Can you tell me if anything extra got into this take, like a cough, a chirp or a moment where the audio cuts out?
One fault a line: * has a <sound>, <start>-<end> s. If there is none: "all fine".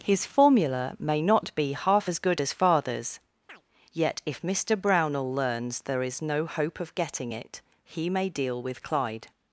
* has a chirp, 3.5-3.6 s